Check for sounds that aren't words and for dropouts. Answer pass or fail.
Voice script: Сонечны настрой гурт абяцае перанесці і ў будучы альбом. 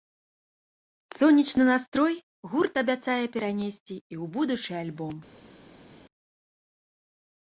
pass